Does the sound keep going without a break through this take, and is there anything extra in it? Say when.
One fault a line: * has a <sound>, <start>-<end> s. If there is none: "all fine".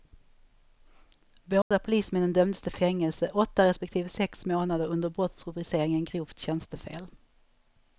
* has a dropout, 1.6-1.7 s